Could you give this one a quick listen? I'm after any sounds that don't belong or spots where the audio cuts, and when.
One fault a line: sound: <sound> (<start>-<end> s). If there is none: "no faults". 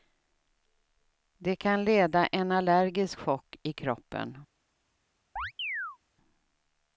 sound: chirp (5.4-6.0 s)